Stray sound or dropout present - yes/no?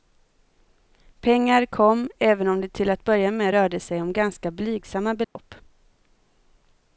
yes